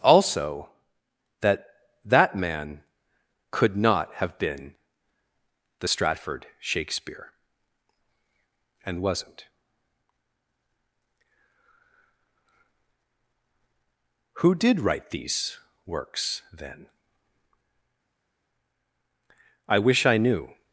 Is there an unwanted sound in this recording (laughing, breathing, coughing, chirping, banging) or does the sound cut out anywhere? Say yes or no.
no